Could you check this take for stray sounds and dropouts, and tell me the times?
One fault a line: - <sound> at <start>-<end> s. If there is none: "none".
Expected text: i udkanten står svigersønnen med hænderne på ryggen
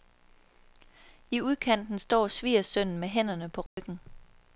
- dropout at 3.7-3.8 s